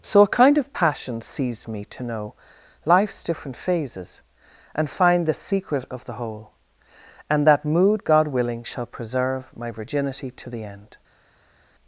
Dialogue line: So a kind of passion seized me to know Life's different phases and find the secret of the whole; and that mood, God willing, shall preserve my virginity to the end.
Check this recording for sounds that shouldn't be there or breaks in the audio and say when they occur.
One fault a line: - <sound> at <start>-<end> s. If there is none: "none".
none